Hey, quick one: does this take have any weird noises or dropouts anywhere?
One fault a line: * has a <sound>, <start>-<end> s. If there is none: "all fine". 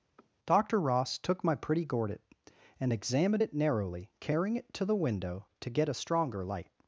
* has a sniff, 0.2-0.3 s